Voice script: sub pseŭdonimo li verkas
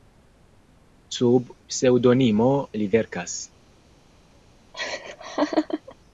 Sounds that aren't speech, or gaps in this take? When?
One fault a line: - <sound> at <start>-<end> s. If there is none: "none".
- laugh at 4.7-6.0 s